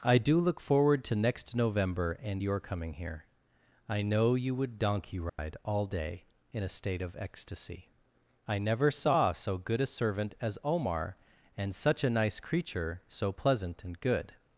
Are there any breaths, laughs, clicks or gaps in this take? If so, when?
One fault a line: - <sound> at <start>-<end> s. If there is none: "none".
- dropout at 5.3-5.4 s